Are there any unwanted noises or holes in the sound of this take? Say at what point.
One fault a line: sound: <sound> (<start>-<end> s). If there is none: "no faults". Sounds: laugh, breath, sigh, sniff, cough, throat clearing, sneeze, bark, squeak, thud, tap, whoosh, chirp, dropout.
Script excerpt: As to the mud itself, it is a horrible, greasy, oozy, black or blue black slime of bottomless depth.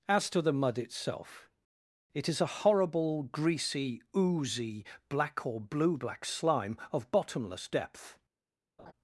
sound: laugh (8.8-8.9 s)